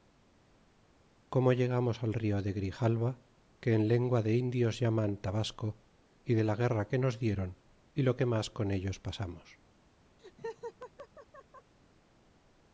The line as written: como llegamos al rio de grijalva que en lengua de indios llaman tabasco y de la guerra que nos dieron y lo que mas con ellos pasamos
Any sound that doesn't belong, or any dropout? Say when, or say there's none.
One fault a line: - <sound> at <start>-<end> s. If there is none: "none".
- laugh at 10.2-11.7 s